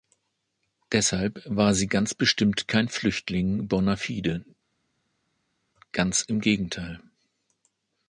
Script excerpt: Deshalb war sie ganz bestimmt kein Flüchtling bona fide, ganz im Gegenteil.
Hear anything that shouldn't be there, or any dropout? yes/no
no